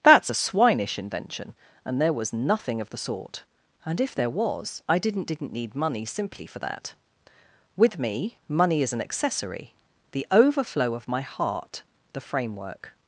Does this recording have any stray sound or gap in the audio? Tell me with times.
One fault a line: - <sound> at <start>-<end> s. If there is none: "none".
none